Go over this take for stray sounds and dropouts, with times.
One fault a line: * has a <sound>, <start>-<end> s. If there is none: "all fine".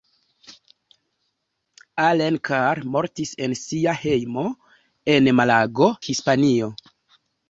all fine